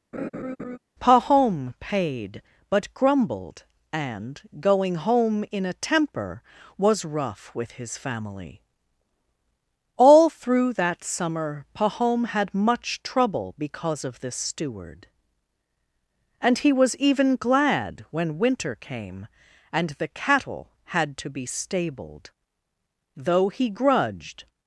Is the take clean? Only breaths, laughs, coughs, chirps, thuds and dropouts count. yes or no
no